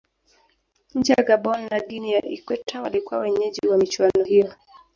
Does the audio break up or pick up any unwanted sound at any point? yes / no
no